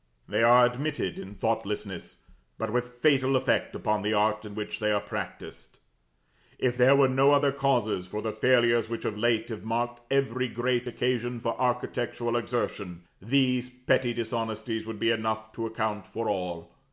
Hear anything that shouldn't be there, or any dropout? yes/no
no